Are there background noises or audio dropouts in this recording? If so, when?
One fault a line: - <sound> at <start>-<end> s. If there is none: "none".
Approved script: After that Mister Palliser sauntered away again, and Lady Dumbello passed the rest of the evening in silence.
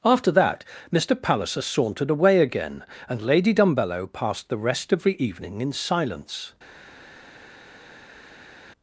none